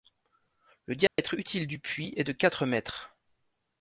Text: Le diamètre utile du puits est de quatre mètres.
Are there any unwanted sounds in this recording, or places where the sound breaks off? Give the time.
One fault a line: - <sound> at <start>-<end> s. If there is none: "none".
- dropout at 1.1-1.2 s